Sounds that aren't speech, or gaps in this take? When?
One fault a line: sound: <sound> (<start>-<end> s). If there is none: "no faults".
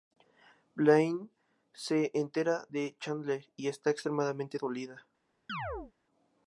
sound: chirp (5.5-5.9 s)